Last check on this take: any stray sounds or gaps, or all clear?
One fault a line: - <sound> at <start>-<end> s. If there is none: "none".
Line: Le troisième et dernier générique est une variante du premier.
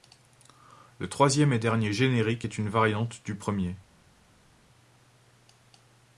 none